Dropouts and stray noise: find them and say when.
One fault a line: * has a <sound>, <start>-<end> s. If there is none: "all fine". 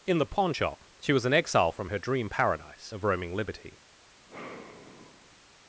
* has a sigh, 4.3-5.4 s